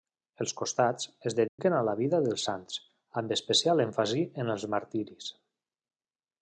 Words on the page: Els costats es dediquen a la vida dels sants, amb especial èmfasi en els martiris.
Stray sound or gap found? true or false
true